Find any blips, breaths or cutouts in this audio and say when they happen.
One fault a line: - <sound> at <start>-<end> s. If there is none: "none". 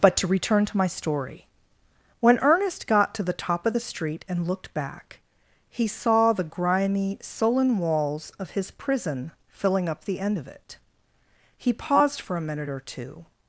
none